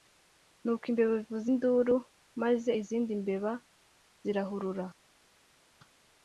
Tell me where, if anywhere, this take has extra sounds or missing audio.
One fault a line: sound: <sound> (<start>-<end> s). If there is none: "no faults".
no faults